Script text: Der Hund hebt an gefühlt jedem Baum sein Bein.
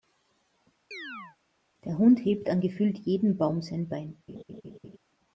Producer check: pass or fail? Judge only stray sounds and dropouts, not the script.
fail